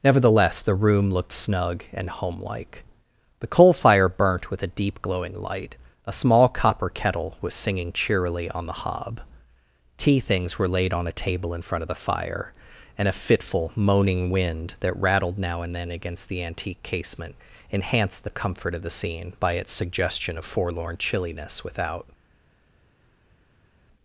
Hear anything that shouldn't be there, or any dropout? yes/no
no